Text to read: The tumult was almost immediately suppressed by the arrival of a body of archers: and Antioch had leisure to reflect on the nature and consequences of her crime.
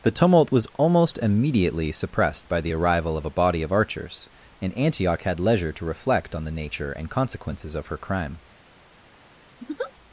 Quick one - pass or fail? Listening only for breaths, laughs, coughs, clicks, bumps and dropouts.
fail